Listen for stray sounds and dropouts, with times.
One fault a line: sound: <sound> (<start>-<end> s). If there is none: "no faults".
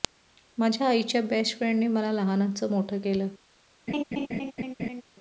sound: laugh (3.9-5.0 s)